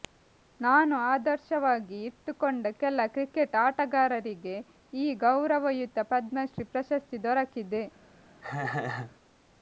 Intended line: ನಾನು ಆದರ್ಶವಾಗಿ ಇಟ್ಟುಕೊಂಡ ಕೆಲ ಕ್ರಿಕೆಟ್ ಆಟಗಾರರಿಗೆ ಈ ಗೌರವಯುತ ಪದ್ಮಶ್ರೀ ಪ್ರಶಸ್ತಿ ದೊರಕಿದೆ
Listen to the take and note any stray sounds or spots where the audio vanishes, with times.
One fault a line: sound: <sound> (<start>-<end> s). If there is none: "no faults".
sound: laugh (8.4-9.2 s)